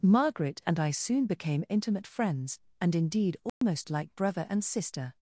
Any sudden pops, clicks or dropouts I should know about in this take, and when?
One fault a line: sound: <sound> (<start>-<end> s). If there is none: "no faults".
sound: dropout (3.5-3.6 s)